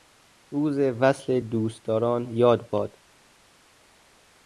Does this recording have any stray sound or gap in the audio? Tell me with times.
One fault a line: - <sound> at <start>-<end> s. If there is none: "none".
none